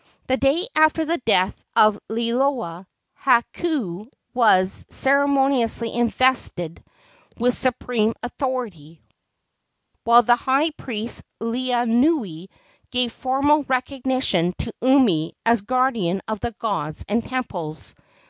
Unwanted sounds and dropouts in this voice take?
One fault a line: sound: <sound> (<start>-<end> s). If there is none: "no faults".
no faults